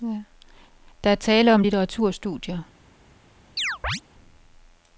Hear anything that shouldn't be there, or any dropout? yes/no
yes